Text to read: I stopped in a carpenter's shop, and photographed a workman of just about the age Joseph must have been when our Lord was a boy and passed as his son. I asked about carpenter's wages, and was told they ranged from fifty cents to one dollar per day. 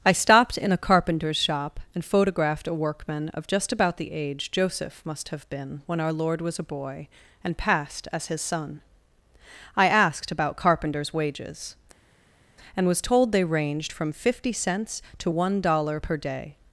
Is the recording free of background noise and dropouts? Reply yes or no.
yes